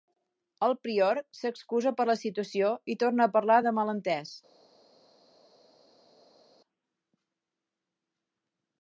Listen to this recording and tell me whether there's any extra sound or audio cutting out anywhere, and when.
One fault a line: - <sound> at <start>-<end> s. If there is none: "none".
none